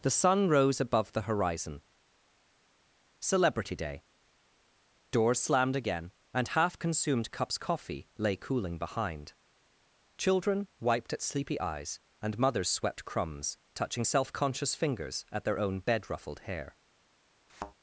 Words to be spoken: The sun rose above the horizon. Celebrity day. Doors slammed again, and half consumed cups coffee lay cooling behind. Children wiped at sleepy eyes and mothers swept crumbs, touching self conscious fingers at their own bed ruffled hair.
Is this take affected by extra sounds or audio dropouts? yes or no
yes